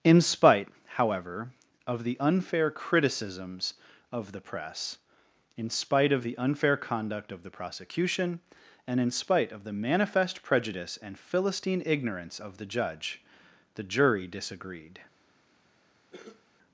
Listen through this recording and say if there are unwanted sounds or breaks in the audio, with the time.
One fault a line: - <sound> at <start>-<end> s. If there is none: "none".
- cough at 16.1-16.4 s